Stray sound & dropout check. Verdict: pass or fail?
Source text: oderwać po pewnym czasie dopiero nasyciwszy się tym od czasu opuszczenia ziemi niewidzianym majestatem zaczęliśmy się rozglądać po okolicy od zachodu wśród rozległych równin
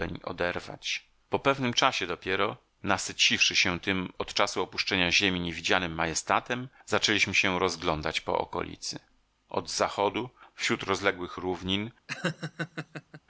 fail